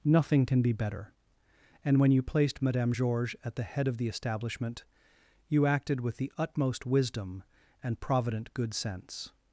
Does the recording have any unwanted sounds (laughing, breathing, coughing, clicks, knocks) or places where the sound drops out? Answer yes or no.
no